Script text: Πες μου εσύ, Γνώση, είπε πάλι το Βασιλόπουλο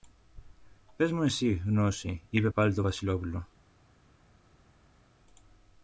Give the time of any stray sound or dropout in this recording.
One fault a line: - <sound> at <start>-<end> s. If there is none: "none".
none